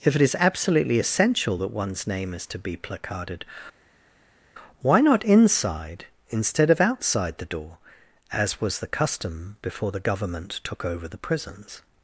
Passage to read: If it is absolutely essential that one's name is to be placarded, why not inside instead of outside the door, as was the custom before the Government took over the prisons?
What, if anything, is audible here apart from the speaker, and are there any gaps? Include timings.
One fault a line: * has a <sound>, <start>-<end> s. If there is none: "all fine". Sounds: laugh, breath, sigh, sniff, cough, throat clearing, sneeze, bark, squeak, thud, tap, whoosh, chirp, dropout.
all fine